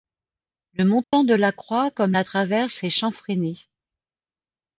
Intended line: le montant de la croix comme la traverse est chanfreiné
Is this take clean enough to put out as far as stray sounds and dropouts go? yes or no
no